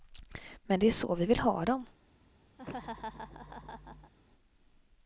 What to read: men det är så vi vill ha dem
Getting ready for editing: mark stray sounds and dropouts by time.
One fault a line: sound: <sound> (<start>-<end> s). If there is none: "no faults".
sound: laugh (2.6-4.1 s)